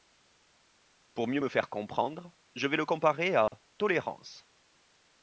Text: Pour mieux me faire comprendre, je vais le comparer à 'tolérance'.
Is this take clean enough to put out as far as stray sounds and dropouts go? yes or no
no